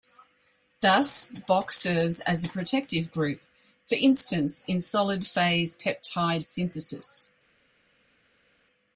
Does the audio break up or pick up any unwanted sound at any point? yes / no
no